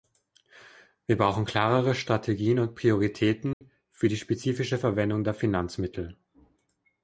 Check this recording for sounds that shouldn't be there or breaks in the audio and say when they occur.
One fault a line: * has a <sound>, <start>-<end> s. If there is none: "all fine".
* has a dropout, 3.5-3.6 s